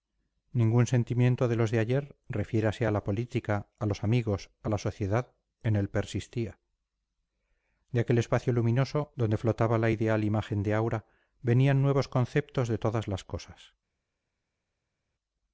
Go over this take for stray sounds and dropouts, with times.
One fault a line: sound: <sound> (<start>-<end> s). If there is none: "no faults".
no faults